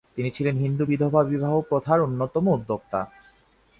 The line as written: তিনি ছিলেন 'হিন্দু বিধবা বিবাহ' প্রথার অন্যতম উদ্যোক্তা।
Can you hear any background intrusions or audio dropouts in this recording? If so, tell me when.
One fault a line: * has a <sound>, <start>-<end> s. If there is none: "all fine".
all fine